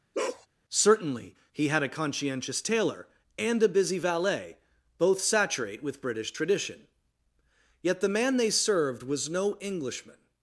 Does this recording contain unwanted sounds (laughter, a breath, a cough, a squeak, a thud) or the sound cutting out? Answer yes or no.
yes